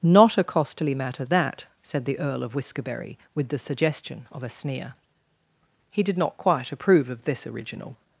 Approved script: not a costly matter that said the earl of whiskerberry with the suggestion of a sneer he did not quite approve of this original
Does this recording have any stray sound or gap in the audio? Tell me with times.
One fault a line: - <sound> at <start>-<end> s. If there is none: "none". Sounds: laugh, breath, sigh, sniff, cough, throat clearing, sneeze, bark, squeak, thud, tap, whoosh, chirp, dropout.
none